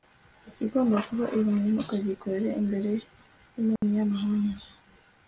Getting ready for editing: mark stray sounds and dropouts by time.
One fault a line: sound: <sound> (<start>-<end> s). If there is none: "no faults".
sound: dropout (3.8-3.8 s)